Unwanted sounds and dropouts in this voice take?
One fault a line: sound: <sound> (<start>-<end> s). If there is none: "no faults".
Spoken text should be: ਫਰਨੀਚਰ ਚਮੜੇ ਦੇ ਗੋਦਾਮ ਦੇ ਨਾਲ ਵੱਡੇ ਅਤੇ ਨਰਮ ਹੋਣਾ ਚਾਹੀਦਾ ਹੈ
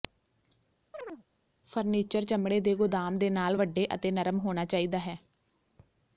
sound: chirp (0.9-1.2 s)